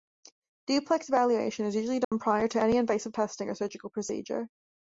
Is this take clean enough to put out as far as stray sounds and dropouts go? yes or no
no